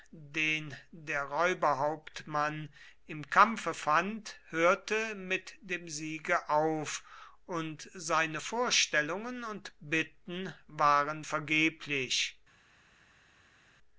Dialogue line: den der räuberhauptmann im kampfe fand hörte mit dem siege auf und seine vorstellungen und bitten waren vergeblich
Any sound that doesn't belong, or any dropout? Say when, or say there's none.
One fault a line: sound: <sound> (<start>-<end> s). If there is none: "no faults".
no faults